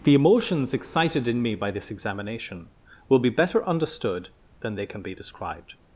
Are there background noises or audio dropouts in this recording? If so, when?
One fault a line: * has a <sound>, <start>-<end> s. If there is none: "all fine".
all fine